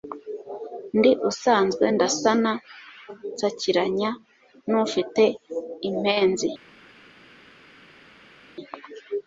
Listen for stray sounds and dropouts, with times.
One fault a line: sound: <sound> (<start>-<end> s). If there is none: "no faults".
no faults